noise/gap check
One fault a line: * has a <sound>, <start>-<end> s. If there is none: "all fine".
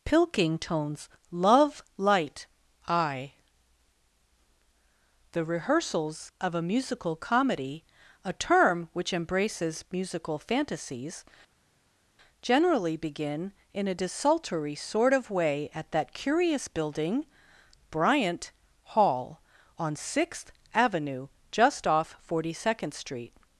all fine